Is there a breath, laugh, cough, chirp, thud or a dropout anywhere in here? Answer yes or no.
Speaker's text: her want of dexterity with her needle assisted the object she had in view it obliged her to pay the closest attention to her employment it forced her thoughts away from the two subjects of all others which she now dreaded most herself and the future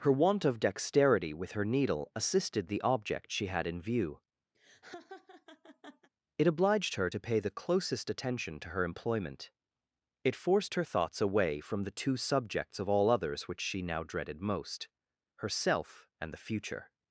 yes